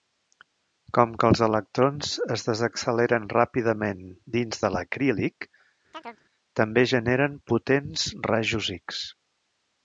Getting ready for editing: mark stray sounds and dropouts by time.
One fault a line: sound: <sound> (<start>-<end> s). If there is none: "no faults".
sound: chirp (5.9-6.2 s)